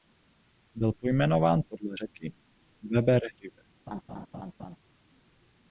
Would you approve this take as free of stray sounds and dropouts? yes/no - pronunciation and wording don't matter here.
no